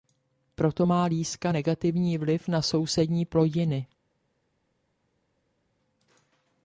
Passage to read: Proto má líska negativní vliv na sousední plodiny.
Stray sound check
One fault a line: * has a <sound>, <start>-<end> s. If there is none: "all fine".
all fine